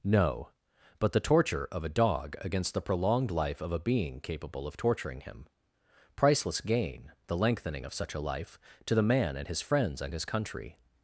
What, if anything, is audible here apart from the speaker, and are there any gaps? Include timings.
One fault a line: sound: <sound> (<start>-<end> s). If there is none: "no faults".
no faults